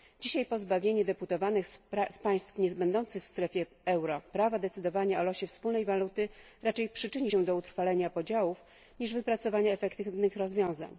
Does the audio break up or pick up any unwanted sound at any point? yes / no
no